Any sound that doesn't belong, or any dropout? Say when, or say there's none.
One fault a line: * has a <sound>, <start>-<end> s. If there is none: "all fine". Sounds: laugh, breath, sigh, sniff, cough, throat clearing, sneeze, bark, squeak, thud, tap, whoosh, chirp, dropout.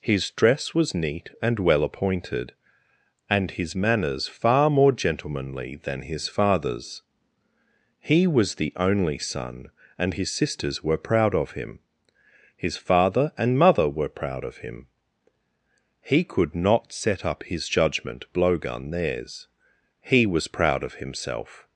all fine